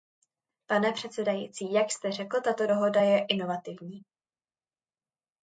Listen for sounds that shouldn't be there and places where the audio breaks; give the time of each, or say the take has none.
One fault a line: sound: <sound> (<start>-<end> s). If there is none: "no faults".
no faults